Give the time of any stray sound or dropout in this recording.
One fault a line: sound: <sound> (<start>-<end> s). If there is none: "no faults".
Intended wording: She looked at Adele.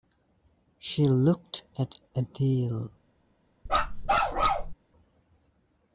sound: bark (3.7-4.7 s)